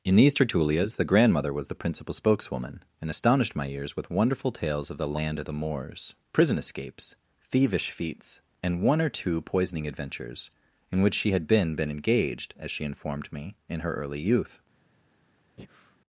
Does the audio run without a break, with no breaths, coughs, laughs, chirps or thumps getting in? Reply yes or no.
no